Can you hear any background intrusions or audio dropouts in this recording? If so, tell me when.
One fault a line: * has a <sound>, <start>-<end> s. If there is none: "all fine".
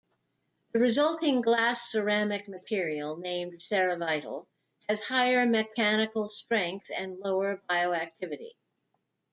all fine